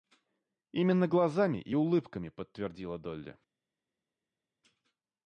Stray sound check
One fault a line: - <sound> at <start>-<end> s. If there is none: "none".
none